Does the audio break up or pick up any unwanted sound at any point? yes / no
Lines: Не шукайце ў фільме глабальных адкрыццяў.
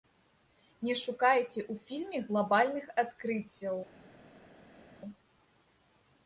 no